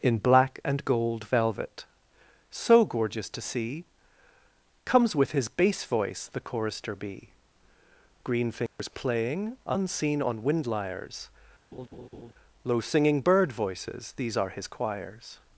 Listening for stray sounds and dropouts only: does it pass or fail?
fail